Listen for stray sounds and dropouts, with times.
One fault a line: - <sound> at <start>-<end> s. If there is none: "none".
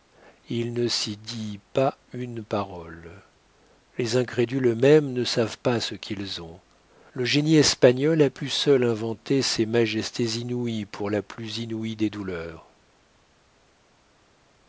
none